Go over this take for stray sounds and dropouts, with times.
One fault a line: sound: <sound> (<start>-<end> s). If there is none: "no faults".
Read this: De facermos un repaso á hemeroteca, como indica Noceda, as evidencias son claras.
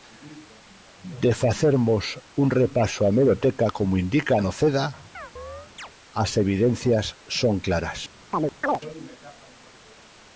sound: chirp (5.1-5.9 s)
sound: chirp (8.3-8.8 s)